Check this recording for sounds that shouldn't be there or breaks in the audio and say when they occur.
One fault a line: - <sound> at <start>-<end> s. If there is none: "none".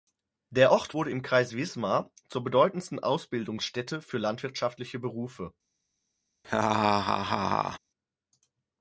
- laugh at 6.4-7.8 s